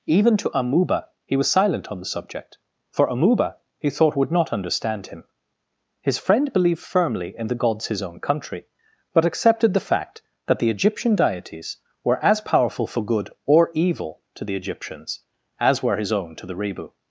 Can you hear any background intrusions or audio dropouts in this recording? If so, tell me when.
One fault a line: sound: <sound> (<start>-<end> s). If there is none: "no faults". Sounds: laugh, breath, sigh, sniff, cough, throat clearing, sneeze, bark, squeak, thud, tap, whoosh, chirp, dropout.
no faults